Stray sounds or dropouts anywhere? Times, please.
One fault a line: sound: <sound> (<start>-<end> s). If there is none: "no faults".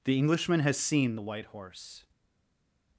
no faults